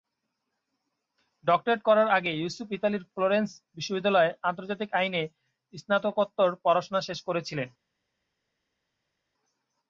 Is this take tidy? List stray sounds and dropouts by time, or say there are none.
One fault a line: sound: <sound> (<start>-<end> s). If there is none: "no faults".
no faults